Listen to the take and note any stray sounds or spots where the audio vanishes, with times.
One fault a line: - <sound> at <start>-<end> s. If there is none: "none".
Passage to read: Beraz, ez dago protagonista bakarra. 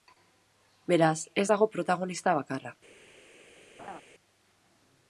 - laugh at 3.8-4.0 s